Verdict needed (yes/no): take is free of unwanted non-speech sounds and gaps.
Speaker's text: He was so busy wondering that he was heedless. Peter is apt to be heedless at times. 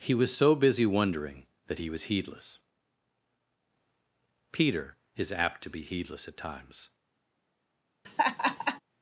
no